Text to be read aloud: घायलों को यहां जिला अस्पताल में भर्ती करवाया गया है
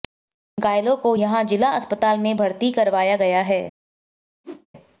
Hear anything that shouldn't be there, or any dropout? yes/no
yes